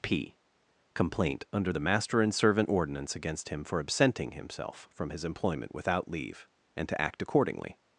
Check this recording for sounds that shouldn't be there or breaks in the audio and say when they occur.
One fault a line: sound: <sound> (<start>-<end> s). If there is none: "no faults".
no faults